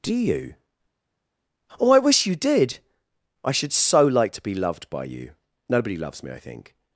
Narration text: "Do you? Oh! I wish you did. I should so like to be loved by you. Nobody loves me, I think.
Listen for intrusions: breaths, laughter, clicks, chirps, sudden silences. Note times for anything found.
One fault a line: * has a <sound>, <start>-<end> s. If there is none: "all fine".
all fine